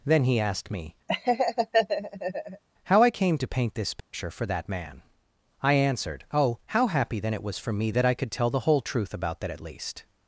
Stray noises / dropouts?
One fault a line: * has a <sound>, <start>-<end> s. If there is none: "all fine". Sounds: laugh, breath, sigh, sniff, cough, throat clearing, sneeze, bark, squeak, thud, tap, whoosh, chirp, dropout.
* has a laugh, 1.1-2.6 s
* has a dropout, 4.0-4.1 s